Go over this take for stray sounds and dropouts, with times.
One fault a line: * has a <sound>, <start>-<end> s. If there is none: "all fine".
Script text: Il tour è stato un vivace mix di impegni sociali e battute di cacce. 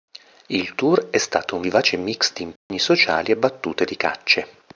* has a dropout, 2.6-2.7 s